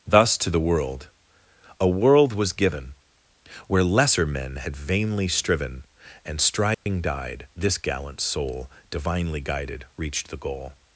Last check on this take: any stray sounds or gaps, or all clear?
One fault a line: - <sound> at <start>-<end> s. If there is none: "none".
- dropout at 6.7-6.9 s